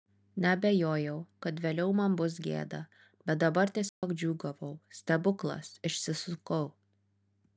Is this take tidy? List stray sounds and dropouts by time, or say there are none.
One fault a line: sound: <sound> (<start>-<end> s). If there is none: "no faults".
sound: dropout (3.9-4.0 s)